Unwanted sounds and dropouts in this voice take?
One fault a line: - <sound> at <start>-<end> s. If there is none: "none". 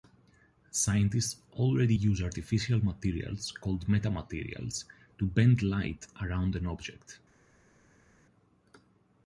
none